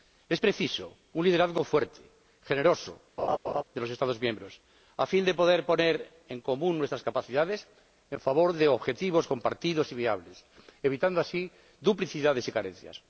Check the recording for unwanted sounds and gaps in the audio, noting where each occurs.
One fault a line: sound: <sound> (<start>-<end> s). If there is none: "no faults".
sound: laugh (3.2-3.6 s)